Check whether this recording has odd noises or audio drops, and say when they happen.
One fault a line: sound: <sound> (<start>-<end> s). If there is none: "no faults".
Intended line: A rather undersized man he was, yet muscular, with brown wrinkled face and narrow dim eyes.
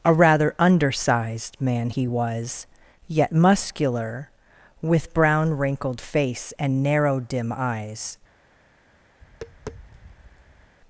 sound: tap (9.2-10.8 s)